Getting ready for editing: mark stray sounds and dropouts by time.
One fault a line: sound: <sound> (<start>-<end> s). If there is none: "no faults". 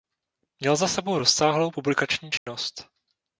sound: dropout (2.4-2.5 s)